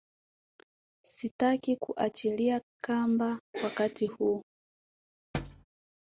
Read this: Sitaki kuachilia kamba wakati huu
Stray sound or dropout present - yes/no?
yes